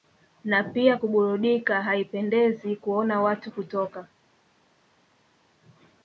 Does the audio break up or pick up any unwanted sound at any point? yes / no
no